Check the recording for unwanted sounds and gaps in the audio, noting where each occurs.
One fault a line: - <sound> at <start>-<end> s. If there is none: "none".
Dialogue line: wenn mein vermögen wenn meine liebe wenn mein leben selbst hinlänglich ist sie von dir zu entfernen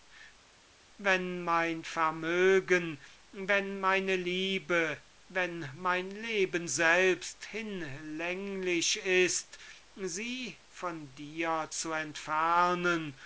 none